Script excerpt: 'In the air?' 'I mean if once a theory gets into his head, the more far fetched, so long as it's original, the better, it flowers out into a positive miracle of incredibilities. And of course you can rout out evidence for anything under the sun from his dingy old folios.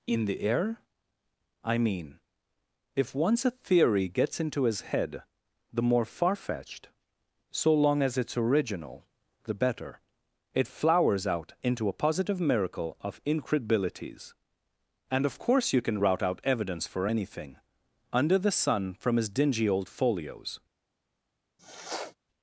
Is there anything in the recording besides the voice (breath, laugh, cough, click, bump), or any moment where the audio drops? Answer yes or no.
yes